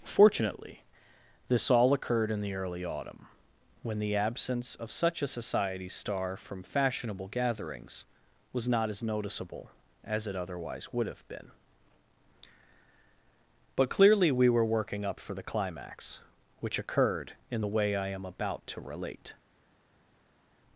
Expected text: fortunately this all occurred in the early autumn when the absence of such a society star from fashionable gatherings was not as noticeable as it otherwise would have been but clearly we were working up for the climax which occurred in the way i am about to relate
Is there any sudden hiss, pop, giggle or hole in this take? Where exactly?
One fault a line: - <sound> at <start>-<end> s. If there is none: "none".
none